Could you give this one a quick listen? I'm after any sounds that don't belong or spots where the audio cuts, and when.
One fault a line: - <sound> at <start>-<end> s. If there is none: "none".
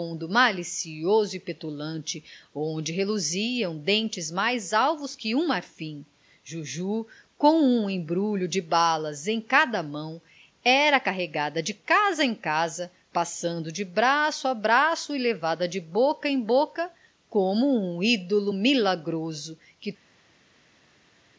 none